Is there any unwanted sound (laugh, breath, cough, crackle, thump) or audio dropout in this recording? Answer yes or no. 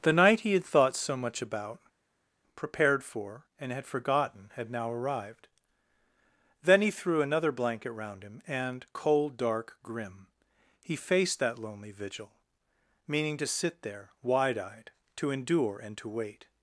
no